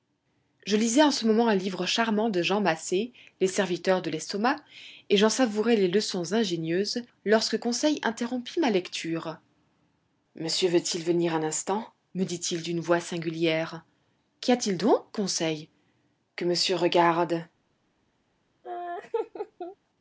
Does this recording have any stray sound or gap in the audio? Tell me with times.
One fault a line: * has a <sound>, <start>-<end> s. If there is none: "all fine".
* has a laugh, 18.6-19.8 s